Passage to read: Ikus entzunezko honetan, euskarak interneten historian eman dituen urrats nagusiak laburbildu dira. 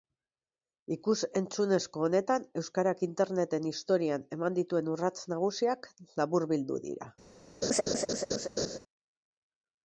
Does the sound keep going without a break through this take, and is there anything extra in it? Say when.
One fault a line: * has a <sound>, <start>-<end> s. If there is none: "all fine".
* has a laugh, 7.6-8.8 s